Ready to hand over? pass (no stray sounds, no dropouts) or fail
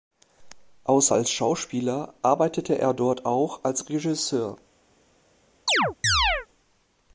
fail